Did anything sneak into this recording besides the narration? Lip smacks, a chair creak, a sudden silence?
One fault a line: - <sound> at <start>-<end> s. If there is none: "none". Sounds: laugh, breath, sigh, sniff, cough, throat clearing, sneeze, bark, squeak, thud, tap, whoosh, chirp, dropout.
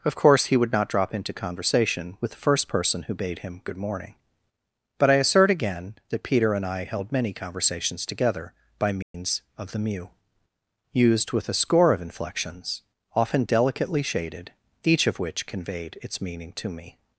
- dropout at 9.0-9.1 s